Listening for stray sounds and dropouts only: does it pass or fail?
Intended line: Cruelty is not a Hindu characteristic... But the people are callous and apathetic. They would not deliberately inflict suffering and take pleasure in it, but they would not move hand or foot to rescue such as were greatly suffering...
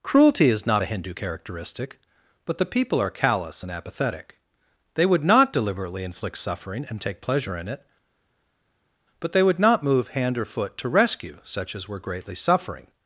pass